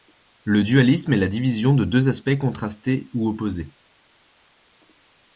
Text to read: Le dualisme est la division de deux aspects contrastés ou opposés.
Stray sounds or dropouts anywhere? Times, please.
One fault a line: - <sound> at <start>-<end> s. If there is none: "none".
none